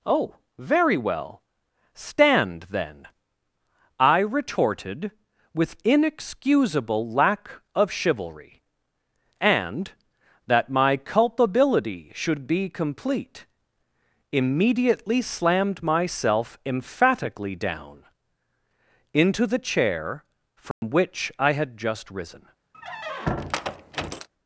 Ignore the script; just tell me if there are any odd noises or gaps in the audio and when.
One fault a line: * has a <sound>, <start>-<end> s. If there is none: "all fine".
* has a dropout, 20.7-20.8 s
* has a squeak, 22.7-24.3 s